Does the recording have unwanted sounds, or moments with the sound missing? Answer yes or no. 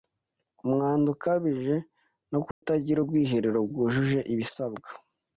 yes